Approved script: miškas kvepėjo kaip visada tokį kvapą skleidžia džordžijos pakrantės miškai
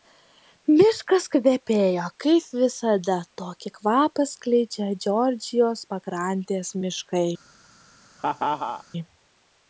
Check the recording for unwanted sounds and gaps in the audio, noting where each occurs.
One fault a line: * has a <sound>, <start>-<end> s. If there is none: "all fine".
* has a laugh, 8.2-8.8 s